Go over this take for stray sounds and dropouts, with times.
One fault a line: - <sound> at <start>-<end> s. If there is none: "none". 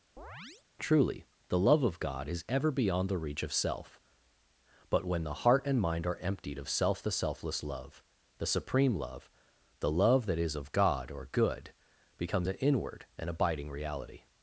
- chirp at 0.2-0.6 s